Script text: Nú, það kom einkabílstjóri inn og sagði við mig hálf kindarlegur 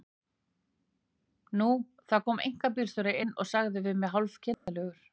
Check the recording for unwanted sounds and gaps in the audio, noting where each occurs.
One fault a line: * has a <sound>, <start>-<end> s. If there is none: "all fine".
* has a dropout, 4.5-4.7 s